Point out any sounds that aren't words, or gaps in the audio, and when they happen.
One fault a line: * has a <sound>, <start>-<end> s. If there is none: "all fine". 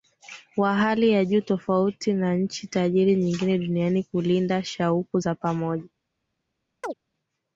* has a chirp, 6.8-6.9 s